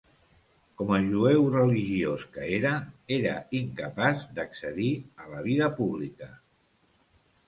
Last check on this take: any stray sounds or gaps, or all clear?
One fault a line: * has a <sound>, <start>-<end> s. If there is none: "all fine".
all fine